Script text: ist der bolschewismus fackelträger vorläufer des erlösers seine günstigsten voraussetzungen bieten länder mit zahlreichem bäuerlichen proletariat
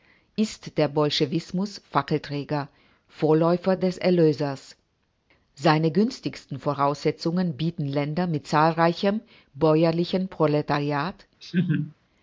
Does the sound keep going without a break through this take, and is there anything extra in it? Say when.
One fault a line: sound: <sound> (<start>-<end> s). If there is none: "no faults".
sound: laugh (11.4-11.9 s)